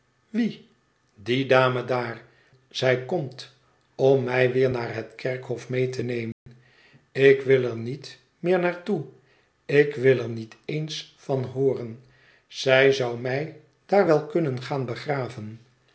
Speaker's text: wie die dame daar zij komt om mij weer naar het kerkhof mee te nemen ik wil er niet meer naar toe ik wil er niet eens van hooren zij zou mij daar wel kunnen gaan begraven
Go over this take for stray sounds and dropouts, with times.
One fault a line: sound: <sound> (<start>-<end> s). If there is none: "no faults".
sound: dropout (6.3-6.5 s)